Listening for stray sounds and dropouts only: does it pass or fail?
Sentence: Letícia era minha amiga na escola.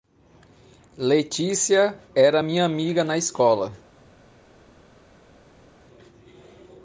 pass